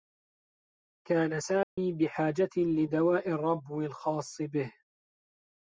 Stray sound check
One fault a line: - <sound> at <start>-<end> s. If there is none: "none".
- dropout at 1.6-1.8 s